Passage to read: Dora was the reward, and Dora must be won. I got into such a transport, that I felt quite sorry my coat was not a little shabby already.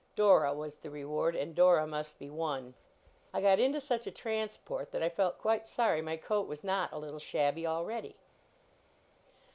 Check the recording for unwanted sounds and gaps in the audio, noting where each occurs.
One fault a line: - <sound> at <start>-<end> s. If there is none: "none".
none